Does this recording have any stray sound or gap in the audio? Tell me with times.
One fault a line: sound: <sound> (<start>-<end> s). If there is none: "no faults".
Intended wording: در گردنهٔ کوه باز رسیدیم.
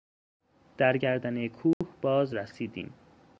sound: dropout (1.7-1.8 s)